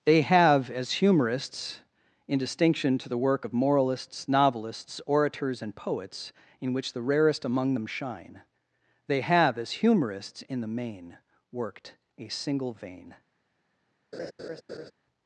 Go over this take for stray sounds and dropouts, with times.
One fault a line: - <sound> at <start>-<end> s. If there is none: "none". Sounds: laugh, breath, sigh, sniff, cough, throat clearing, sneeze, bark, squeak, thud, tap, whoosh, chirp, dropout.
- laugh at 14.1-14.9 s